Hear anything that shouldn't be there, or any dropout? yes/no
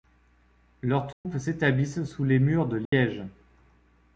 yes